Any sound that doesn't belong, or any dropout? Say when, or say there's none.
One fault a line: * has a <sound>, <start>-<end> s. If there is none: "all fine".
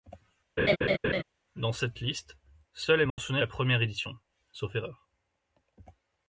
* has a laugh, 0.6-1.2 s
* has a dropout, 3.1-3.2 s